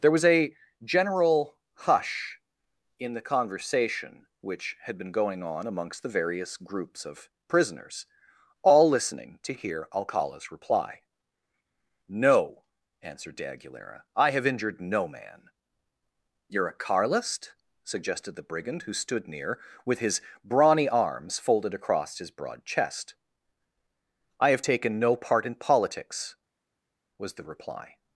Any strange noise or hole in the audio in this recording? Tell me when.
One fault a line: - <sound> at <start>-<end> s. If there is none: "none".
none